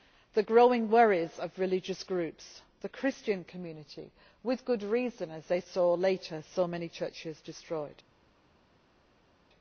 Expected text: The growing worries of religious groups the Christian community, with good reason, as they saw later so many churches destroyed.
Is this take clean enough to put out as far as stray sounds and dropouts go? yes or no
yes